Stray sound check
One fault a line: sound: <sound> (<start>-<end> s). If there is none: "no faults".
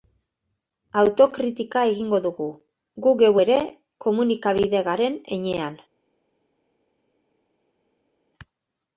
no faults